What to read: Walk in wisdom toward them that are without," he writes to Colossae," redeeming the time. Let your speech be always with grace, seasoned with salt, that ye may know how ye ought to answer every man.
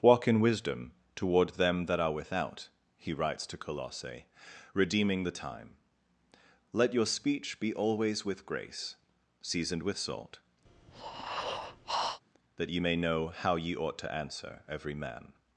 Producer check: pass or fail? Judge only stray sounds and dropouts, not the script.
fail